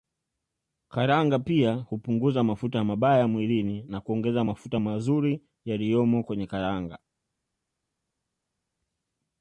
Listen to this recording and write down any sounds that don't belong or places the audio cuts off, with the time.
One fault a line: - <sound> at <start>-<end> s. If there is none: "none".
none